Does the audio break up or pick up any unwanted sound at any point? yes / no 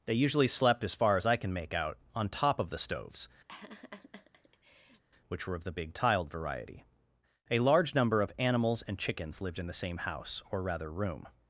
yes